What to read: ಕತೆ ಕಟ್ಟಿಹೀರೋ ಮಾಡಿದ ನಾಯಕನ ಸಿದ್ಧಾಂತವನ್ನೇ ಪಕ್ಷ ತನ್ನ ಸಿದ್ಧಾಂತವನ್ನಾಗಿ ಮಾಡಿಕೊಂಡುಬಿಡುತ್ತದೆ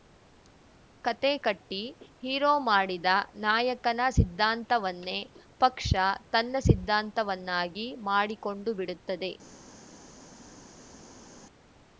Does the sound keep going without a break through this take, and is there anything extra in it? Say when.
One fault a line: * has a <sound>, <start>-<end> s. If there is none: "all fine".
all fine